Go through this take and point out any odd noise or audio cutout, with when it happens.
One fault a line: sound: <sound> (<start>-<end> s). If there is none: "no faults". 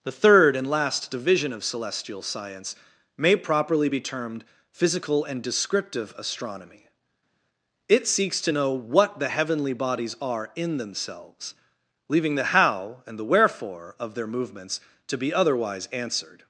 no faults